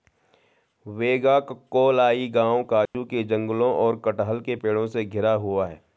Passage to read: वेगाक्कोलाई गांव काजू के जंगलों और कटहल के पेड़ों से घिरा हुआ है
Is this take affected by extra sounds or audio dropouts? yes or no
yes